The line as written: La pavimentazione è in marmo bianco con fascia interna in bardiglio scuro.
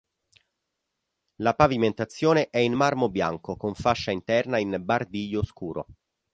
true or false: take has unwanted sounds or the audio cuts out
false